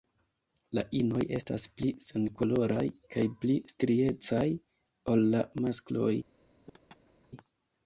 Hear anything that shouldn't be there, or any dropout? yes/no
yes